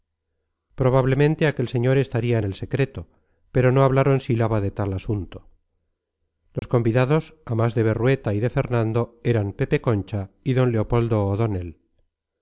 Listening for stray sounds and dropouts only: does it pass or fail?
fail